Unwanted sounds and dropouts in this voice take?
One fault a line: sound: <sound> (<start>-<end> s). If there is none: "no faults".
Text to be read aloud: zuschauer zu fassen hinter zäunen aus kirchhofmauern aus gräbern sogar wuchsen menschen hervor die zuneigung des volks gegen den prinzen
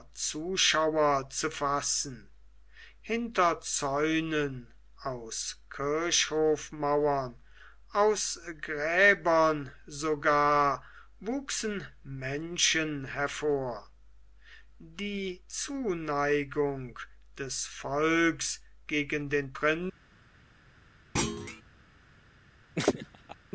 sound: thud (21.2-21.6 s)
sound: laugh (22.8-23.4 s)